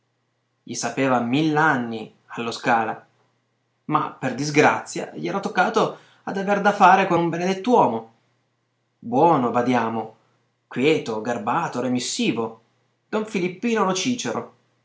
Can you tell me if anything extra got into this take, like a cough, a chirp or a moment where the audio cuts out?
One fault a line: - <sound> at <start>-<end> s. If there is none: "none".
none